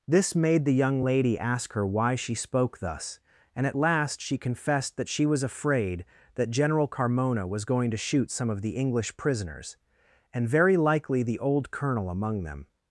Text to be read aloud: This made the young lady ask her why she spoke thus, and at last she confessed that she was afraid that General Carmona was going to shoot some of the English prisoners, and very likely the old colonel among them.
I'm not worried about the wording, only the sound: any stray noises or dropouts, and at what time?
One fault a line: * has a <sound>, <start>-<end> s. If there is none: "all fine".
all fine